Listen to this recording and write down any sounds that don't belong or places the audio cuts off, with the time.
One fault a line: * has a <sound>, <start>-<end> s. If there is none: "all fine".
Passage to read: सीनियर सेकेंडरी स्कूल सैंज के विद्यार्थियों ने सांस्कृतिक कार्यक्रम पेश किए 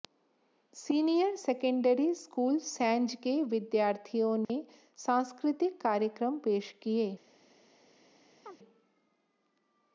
* has a dropout, 4.4-4.5 s
* has a chirp, 8.5-8.6 s